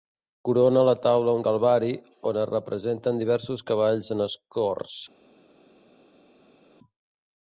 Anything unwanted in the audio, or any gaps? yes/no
no